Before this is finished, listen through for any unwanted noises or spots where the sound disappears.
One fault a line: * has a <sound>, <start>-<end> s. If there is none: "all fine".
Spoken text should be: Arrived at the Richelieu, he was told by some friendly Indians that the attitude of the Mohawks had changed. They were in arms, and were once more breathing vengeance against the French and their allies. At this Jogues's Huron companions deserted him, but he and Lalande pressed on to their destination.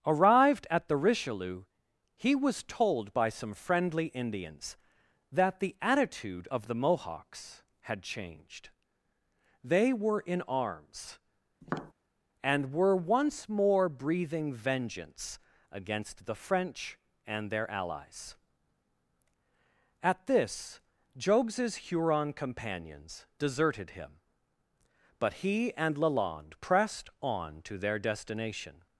* has a tap, 11.6-11.9 s